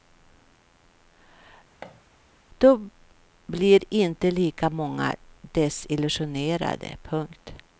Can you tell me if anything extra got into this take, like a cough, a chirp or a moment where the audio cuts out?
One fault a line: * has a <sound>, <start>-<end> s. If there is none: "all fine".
* has a thud, 1.8-2.0 s